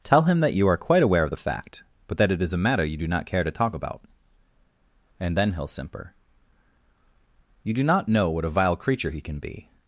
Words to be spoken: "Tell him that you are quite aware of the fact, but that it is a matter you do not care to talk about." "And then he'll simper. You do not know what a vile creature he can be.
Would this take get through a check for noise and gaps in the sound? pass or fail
pass